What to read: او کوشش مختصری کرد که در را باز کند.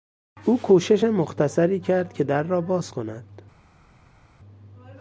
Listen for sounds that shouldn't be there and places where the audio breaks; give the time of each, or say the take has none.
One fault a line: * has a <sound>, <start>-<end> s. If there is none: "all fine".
all fine